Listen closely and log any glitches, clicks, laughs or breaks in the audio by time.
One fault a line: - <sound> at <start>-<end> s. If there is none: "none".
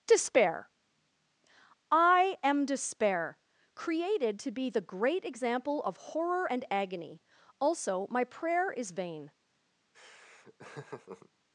- laugh at 9.9-11.3 s